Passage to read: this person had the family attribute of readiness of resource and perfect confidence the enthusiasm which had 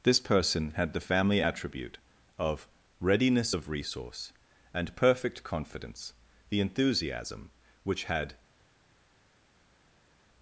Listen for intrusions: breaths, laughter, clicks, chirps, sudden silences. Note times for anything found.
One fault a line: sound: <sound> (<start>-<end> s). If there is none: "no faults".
no faults